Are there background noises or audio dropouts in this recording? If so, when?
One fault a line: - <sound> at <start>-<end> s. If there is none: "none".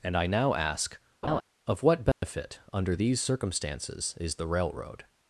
- laugh at 1.2-1.4 s
- dropout at 2.1-2.2 s